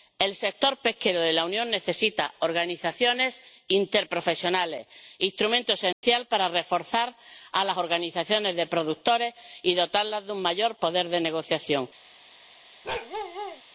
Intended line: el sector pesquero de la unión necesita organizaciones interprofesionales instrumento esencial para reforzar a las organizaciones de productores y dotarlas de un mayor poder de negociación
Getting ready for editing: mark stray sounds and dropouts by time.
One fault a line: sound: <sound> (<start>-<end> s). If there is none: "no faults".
sound: dropout (5.9-6.0 s)
sound: bark (12.8-13.6 s)